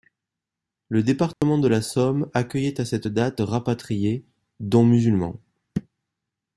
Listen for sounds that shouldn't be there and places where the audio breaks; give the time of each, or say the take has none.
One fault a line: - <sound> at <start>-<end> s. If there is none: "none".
- dropout at 1.3-1.4 s